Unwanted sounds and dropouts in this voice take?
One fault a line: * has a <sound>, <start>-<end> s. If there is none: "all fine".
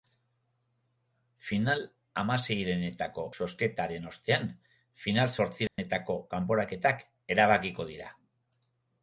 * has a dropout, 5.7-5.8 s